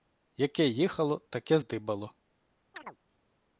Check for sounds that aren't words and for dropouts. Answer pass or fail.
fail